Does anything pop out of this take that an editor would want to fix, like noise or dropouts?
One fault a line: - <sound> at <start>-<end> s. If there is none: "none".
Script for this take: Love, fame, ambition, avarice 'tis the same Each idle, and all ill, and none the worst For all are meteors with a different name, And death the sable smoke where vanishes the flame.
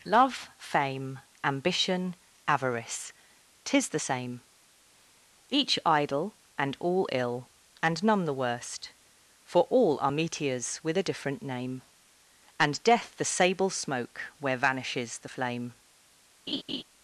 - laugh at 16.5-16.8 s